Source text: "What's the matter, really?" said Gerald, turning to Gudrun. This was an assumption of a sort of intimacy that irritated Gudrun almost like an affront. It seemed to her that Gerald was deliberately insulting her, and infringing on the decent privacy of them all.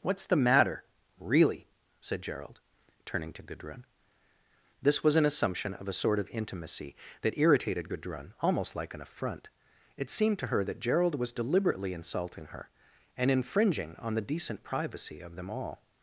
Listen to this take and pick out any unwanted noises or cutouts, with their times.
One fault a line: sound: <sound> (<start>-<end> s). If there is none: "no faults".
no faults